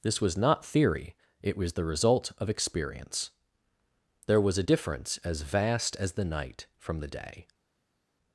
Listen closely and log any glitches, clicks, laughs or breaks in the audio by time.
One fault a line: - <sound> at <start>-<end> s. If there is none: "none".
none